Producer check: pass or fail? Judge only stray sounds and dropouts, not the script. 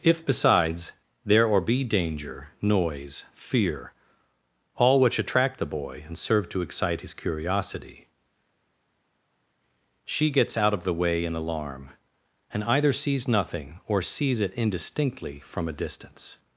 pass